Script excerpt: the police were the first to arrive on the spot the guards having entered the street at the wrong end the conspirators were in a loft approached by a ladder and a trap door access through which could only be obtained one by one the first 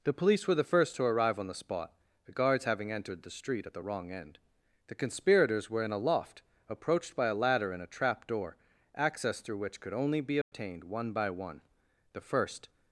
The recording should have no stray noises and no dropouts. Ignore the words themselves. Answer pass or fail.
fail